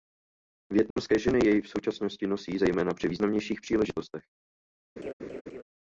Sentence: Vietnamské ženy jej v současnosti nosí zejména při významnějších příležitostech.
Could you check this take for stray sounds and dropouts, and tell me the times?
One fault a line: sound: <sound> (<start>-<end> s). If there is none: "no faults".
sound: dropout (0.9-1.0 s)
sound: laugh (5.0-5.6 s)